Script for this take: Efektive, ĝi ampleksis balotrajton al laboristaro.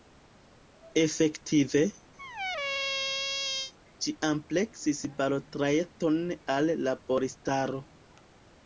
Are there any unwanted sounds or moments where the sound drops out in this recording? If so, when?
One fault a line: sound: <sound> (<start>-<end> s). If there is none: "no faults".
sound: squeak (2.2-3.7 s)